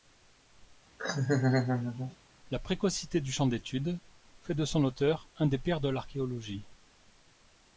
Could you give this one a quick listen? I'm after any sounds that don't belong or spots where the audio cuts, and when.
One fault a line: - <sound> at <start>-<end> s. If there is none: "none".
- laugh at 1.0-2.2 s